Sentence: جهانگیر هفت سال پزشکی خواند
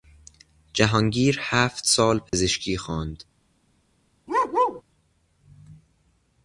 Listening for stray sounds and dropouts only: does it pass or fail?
fail